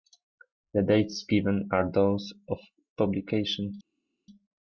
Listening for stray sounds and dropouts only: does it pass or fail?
pass